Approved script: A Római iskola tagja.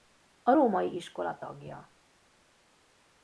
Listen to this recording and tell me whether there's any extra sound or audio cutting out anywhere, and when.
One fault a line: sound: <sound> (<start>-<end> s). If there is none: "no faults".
no faults